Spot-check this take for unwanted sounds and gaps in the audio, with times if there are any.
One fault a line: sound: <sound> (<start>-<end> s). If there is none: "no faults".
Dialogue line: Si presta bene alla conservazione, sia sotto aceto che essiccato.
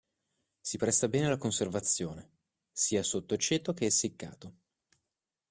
no faults